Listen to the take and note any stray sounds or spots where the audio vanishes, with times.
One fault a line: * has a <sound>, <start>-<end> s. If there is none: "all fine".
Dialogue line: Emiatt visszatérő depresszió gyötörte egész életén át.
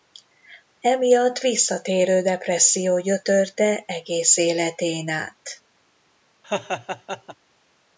* has a laugh, 6.4-7.3 s